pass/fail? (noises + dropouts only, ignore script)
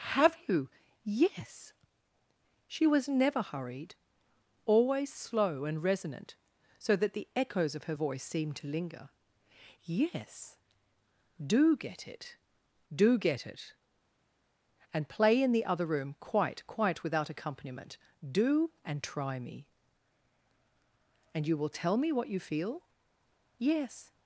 pass